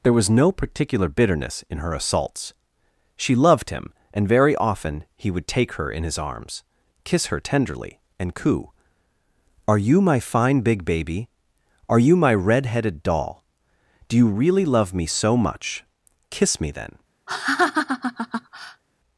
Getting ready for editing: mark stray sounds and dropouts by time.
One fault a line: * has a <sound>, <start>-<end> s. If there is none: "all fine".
* has a laugh, 17.3-18.8 s